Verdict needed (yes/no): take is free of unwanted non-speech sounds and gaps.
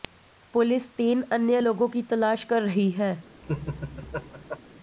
no